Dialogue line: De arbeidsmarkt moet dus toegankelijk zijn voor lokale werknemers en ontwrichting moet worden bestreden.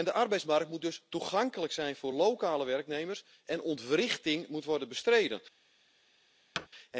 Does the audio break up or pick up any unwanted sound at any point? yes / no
yes